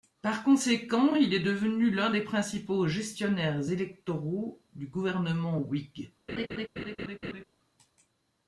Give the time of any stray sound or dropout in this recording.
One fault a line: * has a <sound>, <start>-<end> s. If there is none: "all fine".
* has a laugh, 6.3-7.4 s